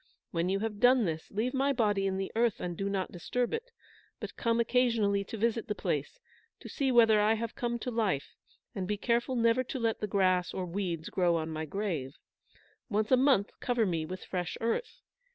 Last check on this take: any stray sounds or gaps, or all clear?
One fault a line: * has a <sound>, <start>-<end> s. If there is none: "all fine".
all fine